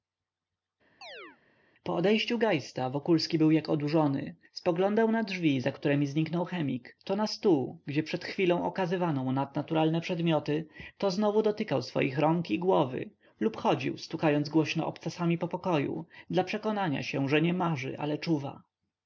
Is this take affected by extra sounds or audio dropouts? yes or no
yes